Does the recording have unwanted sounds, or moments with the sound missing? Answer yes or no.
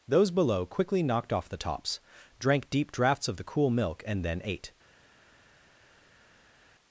no